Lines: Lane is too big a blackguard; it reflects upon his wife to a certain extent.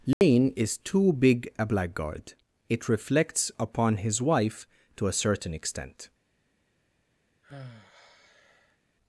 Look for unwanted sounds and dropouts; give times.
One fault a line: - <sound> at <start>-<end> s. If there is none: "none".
- dropout at 0.1-0.2 s
- sigh at 7.4-8.8 s